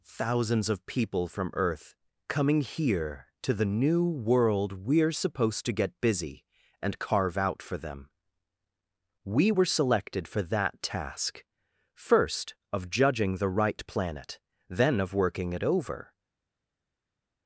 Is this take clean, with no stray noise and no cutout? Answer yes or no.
yes